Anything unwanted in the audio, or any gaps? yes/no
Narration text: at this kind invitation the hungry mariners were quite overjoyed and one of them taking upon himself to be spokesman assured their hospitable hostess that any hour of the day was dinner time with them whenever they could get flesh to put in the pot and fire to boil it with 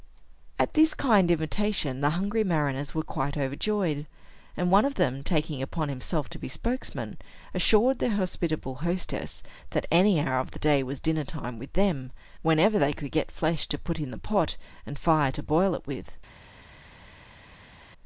no